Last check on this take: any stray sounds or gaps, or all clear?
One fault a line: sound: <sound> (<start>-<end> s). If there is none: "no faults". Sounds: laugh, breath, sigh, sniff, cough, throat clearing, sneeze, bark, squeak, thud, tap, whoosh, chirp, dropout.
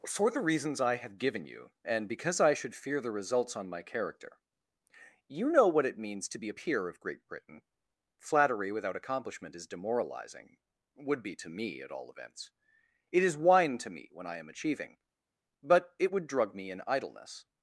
no faults